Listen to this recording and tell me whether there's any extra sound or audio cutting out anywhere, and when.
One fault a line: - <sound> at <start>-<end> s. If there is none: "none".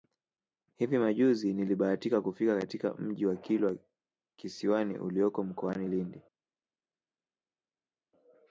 none